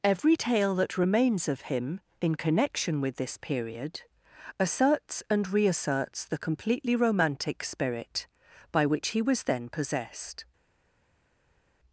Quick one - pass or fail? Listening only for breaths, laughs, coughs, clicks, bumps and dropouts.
pass